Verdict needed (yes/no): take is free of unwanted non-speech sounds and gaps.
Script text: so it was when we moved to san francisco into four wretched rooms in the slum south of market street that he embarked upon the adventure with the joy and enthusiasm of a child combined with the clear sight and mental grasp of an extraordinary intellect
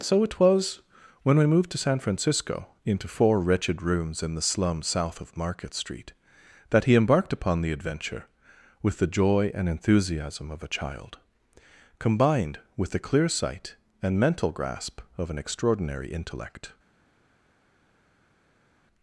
yes